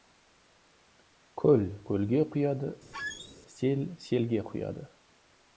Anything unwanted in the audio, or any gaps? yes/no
yes